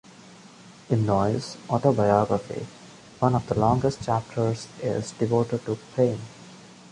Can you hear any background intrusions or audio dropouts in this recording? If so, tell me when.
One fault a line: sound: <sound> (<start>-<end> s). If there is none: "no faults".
no faults